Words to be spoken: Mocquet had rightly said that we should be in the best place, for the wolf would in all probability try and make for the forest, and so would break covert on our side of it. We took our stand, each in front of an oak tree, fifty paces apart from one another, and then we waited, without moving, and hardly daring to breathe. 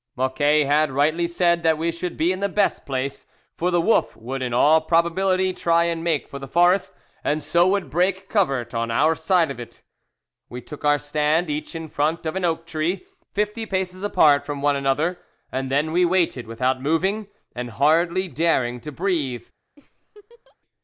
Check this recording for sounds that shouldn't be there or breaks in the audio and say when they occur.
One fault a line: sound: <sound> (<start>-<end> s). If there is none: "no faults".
sound: laugh (19.8-20.6 s)